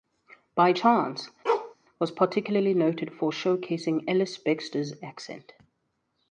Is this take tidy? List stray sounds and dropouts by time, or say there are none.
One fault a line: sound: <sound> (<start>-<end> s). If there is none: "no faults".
sound: bark (1.4-1.7 s)